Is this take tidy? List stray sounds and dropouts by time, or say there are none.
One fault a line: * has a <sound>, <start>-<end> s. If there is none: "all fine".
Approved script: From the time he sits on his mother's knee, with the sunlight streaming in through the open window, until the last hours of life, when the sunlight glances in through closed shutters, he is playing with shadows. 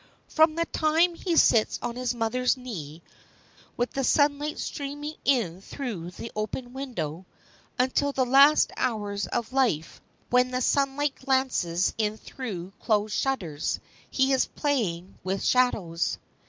all fine